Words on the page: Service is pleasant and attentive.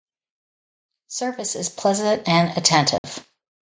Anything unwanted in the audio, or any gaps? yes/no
yes